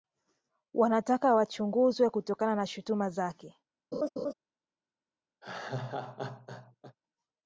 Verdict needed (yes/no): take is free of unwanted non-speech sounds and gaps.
no